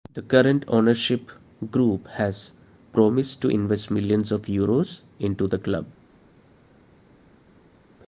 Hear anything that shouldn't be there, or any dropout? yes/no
no